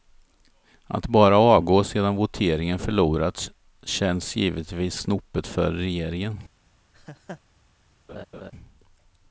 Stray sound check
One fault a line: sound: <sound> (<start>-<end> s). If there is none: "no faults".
sound: laugh (6.9-7.4 s)
sound: laugh (8.1-8.5 s)